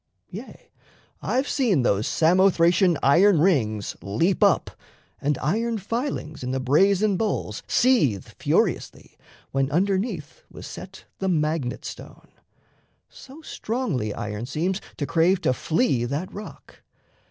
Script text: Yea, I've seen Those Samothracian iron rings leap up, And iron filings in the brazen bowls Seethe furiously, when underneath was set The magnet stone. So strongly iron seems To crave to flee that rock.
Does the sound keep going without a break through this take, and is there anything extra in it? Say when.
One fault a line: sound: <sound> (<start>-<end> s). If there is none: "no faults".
no faults